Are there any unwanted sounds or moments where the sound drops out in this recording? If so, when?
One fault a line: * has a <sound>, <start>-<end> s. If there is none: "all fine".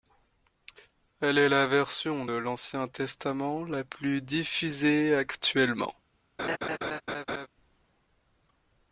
* has a laugh, 6.4-7.5 s